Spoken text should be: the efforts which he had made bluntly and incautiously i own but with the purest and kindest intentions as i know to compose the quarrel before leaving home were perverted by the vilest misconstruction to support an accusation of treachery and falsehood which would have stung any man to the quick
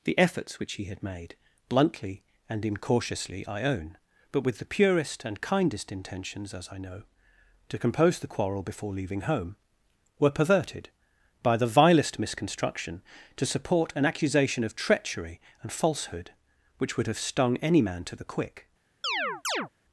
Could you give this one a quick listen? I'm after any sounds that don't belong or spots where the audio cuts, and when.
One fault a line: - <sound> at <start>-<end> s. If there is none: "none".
- chirp at 19.0-19.7 s